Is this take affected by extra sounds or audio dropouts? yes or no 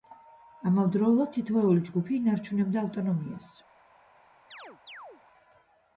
yes